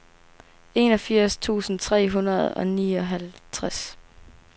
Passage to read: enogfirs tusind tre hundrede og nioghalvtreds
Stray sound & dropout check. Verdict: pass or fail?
pass